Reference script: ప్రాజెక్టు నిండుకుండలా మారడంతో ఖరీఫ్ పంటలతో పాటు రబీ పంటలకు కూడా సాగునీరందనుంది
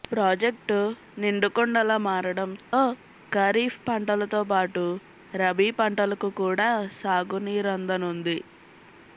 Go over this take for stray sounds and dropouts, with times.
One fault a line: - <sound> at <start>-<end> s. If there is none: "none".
- dropout at 2.6-2.7 s